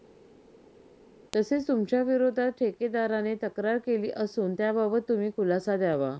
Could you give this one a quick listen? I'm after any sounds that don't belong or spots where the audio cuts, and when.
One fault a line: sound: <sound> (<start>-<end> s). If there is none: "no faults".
no faults